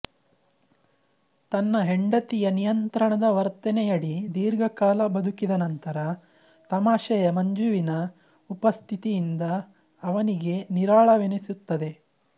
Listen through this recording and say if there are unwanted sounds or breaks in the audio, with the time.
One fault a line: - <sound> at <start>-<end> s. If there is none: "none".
none